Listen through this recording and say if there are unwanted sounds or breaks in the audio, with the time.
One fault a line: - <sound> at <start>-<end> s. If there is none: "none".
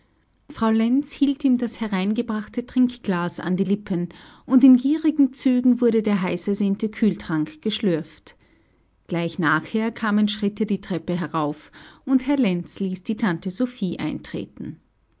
none